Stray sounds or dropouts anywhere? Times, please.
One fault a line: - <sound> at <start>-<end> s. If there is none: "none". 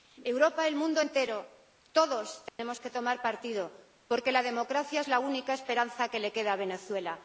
- dropout at 2.5-2.6 s